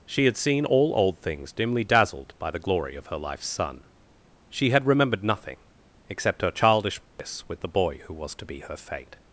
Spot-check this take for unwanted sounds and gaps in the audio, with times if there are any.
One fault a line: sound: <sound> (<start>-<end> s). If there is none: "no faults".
sound: dropout (7.1-7.2 s)